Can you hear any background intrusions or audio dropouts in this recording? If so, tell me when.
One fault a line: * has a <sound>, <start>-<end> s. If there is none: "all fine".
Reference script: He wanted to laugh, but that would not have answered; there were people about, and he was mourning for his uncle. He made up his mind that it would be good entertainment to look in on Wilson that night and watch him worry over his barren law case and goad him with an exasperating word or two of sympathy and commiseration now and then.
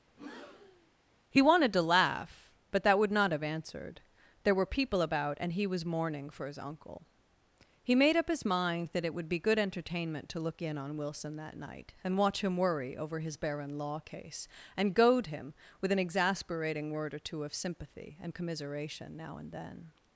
* has a breath, 0.1-0.9 s